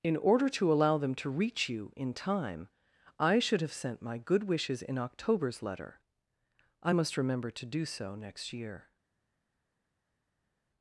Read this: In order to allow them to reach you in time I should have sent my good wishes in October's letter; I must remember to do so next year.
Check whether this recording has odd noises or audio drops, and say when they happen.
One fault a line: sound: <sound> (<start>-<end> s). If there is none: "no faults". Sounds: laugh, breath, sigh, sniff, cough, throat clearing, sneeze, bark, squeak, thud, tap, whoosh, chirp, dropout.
no faults